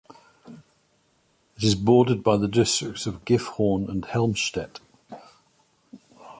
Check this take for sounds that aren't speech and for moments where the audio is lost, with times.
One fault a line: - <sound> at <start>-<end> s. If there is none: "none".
none